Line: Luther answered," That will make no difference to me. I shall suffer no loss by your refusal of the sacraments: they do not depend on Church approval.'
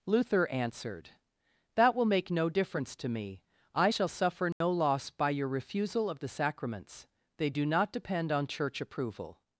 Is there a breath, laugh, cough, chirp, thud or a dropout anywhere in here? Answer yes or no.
yes